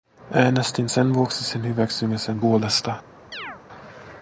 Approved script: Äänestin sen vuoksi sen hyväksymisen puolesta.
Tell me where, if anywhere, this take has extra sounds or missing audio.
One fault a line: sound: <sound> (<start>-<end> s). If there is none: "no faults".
sound: chirp (3.3-3.6 s)